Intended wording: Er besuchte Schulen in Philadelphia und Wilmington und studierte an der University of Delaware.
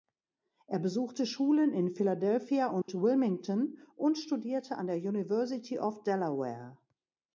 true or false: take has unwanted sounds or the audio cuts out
true